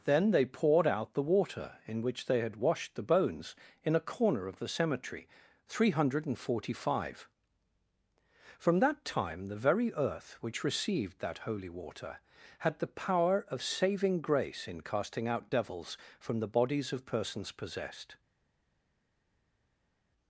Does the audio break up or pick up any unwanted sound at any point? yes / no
no